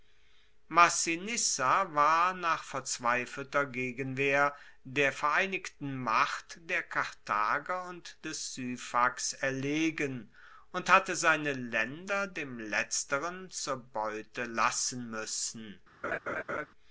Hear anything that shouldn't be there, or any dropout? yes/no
yes